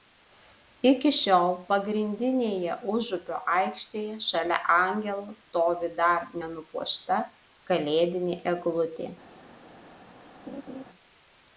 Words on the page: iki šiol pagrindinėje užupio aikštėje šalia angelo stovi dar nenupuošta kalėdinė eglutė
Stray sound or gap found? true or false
true